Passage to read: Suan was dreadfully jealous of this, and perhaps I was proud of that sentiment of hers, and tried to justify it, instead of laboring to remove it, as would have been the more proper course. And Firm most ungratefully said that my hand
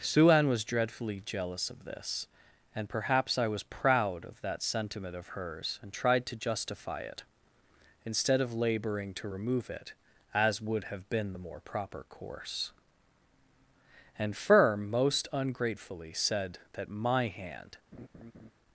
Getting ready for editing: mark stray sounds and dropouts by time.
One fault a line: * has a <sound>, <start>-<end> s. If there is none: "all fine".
* has a laugh, 17.9-18.5 s